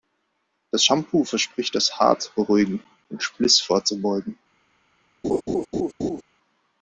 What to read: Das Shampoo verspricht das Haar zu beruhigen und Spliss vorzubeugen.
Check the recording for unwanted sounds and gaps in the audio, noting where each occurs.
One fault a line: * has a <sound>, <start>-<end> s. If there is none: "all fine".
* has a laugh, 5.2-6.2 s